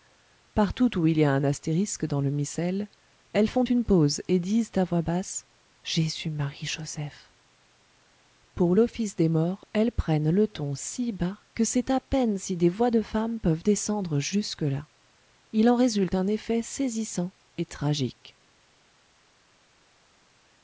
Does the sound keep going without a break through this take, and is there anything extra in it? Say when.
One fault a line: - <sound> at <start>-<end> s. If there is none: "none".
none